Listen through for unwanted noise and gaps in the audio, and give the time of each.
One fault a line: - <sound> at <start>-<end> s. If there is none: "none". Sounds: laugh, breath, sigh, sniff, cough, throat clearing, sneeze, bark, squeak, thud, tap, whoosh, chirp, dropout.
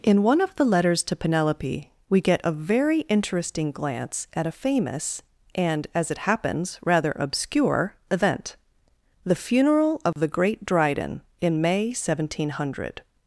- dropout at 10.1-10.2 s